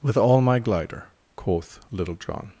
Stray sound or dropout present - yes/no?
no